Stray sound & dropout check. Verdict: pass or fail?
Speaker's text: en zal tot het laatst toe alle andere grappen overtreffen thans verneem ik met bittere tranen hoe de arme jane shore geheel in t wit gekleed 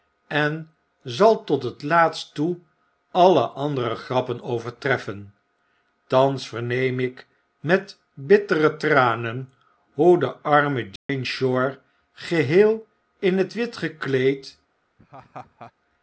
fail